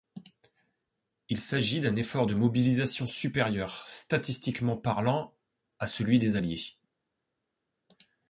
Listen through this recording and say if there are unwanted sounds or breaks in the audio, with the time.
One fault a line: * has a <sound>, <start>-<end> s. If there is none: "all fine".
all fine